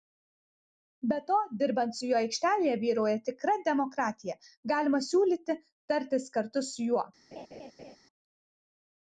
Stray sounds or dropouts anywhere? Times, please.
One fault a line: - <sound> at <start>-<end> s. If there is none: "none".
- laugh at 7.3-8.0 s